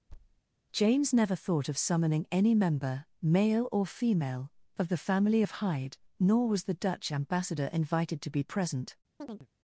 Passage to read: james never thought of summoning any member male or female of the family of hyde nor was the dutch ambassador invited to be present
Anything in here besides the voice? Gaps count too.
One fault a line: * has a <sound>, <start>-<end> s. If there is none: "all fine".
* has a thud, 0.1-0.4 s
* has a chirp, 9.2-9.5 s